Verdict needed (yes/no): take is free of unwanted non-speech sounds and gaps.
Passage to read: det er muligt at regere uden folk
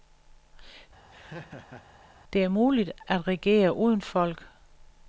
no